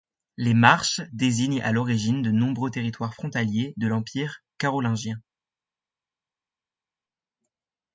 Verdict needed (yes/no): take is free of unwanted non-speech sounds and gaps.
yes